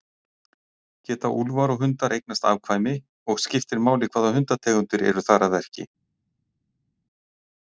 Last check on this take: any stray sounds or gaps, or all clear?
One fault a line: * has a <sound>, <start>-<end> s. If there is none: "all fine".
all fine